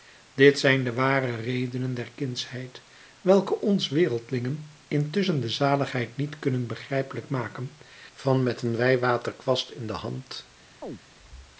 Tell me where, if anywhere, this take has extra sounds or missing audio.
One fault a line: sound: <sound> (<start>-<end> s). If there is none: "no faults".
sound: chirp (10.8-11.0 s)